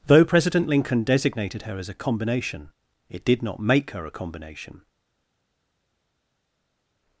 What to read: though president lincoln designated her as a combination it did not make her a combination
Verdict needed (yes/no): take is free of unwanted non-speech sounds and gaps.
yes